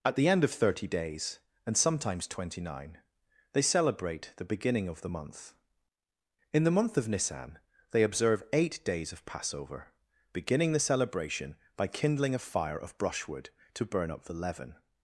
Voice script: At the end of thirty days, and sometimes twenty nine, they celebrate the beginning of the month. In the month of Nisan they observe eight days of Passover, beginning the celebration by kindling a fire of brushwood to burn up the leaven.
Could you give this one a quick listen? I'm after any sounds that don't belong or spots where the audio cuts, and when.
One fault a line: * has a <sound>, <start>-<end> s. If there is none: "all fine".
all fine